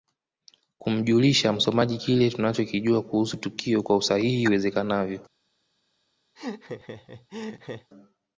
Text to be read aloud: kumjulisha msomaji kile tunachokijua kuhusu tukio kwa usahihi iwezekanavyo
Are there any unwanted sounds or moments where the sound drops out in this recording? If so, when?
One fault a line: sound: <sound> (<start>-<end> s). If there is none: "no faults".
sound: laugh (6.4-7.9 s)